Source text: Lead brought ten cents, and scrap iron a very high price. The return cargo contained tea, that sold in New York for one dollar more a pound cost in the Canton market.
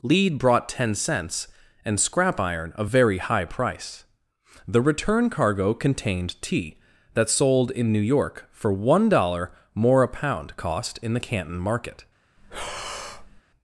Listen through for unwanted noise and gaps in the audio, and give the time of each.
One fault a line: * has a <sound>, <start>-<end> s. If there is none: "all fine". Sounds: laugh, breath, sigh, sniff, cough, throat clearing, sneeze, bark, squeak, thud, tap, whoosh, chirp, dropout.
* has a breath, 12.4-13.4 s